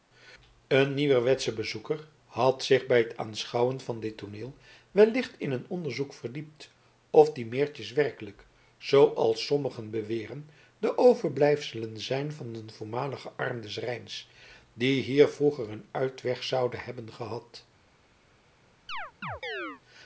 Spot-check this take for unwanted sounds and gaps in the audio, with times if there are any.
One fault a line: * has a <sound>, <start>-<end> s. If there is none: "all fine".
* has a chirp, 18.9-19.8 s